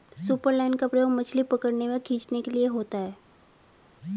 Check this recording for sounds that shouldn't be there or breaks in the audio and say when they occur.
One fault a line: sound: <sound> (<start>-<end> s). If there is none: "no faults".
no faults